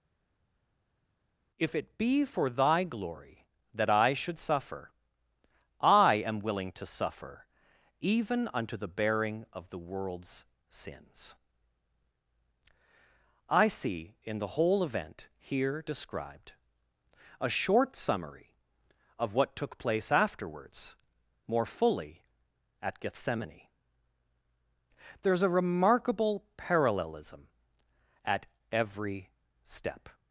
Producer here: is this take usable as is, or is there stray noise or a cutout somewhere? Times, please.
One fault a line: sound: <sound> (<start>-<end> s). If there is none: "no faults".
no faults